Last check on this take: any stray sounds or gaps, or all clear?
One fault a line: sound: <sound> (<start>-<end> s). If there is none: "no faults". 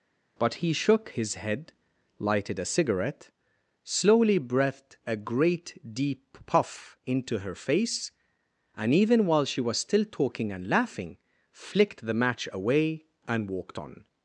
no faults